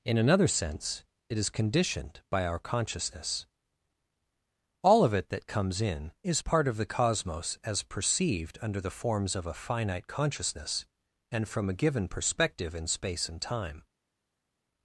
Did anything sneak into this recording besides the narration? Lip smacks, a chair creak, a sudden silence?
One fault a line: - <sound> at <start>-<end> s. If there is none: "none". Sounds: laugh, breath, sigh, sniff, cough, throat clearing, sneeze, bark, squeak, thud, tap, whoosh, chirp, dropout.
none